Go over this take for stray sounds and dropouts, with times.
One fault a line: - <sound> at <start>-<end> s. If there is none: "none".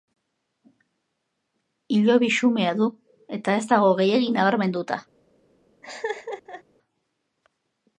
- laugh at 5.8-6.6 s